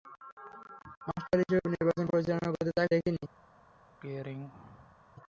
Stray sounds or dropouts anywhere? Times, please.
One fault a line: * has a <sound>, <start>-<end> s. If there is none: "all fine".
* has a throat clearing, 4.0-5.0 s